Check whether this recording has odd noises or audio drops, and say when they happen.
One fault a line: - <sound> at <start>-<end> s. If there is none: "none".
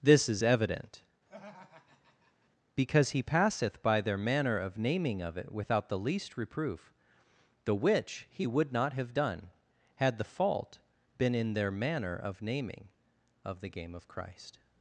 - laugh at 1.3-2.5 s